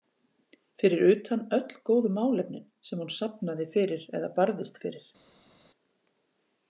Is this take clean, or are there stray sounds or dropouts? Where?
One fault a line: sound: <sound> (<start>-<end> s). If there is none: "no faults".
no faults